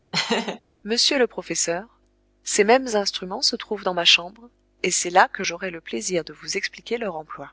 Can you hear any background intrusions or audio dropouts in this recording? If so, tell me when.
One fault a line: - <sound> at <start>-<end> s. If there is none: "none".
- laugh at 0.1-0.6 s